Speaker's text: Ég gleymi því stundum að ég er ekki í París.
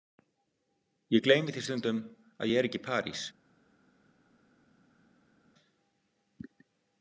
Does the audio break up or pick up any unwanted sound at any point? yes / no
no